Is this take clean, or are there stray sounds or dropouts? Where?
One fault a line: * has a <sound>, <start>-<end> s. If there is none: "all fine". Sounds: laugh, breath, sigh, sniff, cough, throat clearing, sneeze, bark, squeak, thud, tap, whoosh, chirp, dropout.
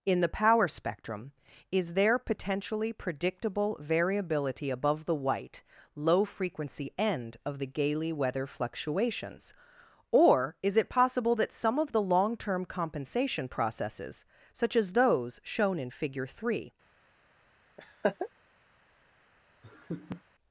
* has a laugh, 17.8-18.3 s
* has a laugh, 19.6-20.2 s